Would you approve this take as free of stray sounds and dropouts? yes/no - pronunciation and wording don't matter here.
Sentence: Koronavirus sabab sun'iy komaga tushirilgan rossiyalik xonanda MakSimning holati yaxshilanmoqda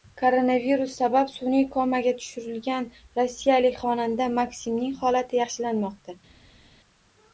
yes